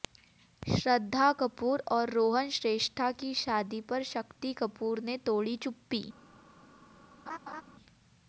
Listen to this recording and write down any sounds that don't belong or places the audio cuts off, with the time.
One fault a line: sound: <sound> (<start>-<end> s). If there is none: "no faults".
sound: laugh (7.3-7.6 s)